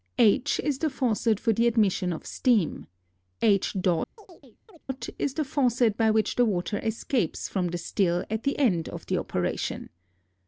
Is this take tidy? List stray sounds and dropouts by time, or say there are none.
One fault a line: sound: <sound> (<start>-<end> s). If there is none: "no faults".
sound: chirp (4.2-4.8 s)